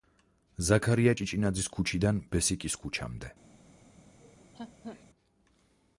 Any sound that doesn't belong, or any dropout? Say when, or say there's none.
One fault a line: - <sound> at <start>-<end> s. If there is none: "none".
- laugh at 4.2-5.0 s